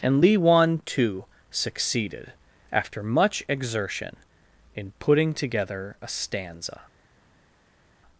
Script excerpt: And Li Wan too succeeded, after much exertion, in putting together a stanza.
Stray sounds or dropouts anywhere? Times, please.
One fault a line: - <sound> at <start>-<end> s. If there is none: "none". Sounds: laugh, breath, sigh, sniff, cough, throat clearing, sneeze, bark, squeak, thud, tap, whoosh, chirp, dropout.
none